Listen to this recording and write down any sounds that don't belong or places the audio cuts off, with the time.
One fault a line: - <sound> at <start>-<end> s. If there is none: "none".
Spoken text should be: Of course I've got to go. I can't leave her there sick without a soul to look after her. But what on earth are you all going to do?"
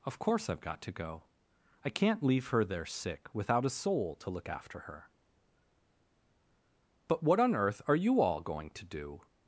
none